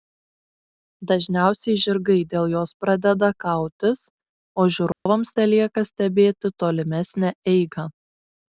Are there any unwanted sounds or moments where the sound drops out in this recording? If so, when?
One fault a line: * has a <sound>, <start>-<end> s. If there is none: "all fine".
* has a dropout, 4.9-5.1 s